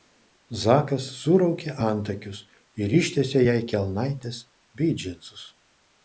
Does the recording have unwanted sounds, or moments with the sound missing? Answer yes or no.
no